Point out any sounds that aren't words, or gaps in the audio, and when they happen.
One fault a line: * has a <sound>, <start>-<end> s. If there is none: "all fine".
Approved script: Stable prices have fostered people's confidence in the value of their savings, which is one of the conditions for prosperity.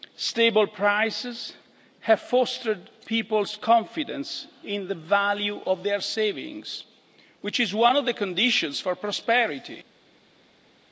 all fine